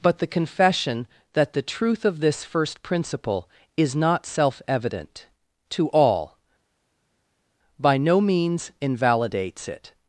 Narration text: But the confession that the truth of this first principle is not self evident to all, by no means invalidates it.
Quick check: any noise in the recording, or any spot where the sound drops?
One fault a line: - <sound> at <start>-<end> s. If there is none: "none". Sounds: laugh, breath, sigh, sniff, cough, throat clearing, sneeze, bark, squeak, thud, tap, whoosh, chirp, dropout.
none